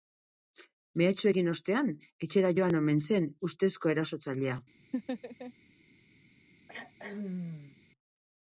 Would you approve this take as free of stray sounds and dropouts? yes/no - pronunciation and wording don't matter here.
no